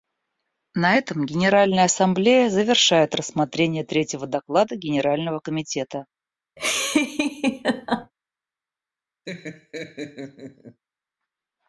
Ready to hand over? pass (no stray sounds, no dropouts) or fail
fail